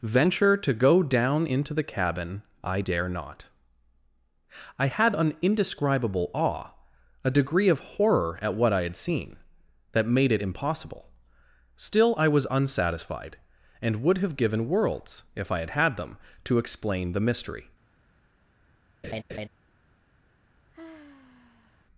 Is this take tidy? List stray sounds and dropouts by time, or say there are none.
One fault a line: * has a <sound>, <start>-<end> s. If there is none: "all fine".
* has a laugh, 19.0-19.5 s
* has a sigh, 20.7-21.9 s